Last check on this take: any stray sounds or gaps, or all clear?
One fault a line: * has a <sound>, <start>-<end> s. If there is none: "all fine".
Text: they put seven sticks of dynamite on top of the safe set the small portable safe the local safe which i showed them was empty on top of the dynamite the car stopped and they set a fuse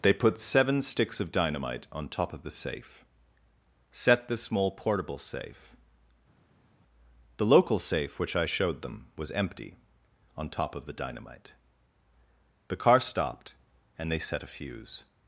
all fine